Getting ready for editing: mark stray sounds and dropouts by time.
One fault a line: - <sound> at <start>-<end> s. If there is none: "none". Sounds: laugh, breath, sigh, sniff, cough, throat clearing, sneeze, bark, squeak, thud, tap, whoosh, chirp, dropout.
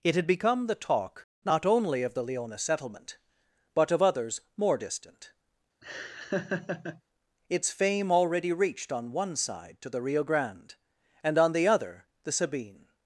- laugh at 5.8-7.0 s